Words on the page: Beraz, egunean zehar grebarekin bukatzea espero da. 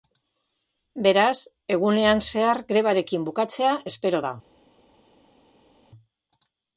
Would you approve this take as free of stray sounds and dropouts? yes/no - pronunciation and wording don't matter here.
yes